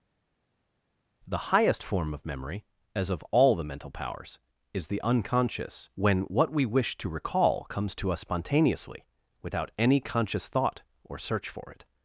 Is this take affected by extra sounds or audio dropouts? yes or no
no